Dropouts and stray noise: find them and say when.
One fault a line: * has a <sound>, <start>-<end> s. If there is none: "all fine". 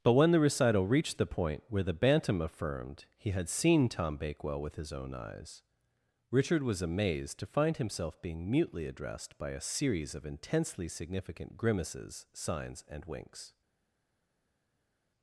all fine